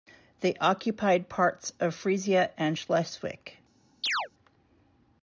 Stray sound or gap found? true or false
true